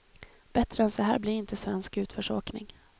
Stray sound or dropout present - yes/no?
no